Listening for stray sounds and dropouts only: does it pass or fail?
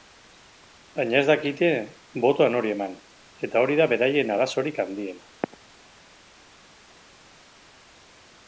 pass